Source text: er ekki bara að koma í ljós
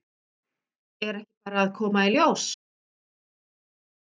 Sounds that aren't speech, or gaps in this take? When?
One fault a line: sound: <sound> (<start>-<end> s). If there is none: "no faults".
no faults